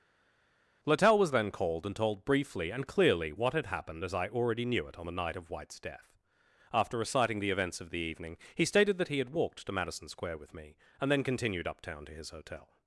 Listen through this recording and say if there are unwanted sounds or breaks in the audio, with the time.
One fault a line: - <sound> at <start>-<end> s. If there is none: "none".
none